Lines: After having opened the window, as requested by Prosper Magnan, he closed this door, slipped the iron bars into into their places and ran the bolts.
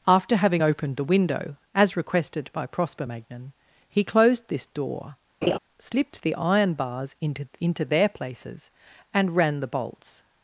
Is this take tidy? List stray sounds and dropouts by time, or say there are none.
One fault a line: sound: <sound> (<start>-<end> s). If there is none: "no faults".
sound: laugh (5.4-5.6 s)